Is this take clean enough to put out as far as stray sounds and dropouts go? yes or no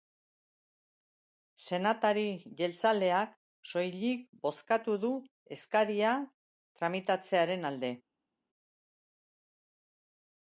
yes